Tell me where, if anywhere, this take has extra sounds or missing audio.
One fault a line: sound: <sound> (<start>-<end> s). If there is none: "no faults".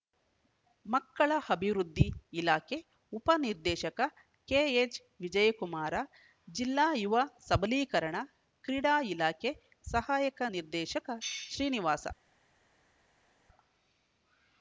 no faults